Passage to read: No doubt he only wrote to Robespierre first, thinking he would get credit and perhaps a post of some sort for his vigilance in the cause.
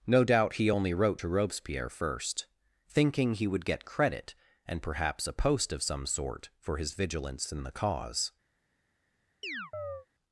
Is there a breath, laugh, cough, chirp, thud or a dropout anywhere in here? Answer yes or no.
yes